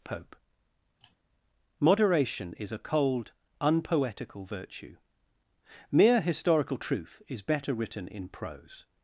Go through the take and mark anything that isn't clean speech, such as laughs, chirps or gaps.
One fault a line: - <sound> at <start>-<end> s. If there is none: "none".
- sigh at 1.0-1.2 s